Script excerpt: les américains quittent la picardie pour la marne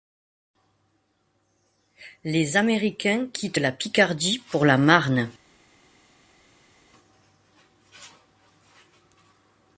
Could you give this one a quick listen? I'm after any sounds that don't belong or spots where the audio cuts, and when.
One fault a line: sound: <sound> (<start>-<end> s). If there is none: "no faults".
no faults